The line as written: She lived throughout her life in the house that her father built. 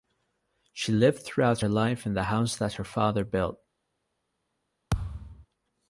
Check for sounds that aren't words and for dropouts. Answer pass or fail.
fail